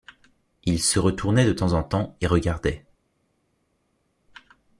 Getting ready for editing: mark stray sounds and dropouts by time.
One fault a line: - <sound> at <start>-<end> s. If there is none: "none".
none